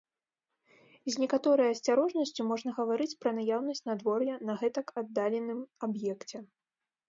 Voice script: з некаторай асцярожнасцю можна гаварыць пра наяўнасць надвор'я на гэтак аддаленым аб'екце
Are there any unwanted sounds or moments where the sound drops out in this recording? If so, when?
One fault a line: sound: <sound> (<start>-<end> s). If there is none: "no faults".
no faults